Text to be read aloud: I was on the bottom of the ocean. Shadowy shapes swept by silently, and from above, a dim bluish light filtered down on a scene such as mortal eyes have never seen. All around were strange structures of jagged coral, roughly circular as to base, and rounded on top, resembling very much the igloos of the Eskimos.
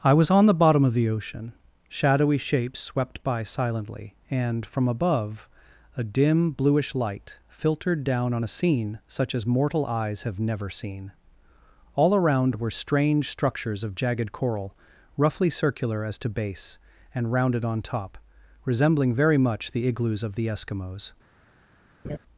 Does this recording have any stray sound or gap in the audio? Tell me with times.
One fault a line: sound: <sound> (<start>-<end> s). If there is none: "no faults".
sound: laugh (22.0-22.2 s)